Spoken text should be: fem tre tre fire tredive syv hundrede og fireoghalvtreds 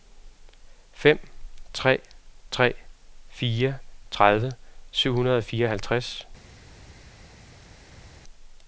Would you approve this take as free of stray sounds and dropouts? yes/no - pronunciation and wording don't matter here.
yes